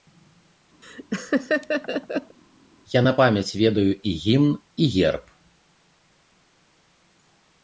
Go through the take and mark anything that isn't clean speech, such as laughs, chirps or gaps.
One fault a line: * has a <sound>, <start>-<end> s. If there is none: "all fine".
* has a laugh, 0.8-2.4 s